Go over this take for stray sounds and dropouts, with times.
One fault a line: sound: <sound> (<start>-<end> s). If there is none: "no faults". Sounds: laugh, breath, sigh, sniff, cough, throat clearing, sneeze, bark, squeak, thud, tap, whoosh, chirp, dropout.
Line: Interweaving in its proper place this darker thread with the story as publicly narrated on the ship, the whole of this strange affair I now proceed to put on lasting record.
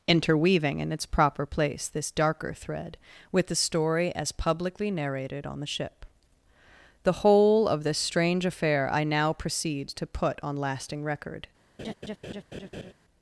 sound: laugh (11.8-12.9 s)